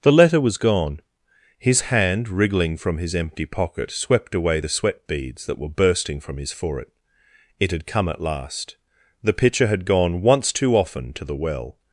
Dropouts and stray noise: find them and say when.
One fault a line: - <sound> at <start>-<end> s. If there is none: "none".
none